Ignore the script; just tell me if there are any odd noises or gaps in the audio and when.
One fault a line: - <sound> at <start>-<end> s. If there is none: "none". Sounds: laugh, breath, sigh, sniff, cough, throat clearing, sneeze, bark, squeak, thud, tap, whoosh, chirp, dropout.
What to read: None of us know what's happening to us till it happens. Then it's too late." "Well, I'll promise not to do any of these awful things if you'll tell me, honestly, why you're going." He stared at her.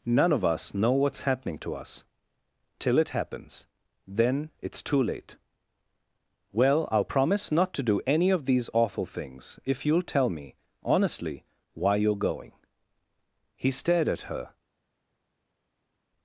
none